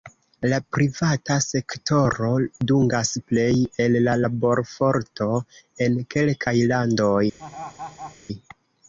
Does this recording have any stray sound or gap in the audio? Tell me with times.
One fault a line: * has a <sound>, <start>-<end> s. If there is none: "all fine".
* has a laugh, 7.4-8.2 s